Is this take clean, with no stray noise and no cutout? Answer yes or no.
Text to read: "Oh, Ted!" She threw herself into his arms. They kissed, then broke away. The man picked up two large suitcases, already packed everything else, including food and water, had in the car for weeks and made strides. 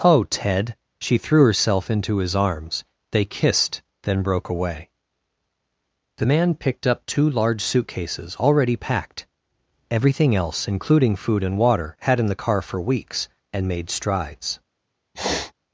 no